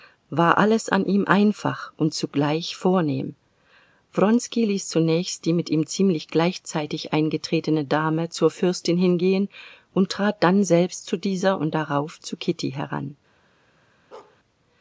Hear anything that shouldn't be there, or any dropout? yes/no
yes